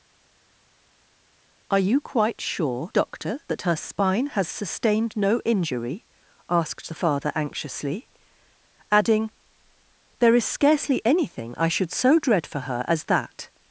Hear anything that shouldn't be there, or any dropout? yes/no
no